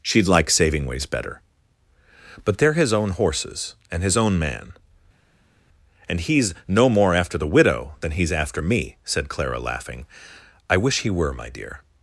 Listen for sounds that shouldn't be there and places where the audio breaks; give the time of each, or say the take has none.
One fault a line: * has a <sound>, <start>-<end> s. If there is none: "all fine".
all fine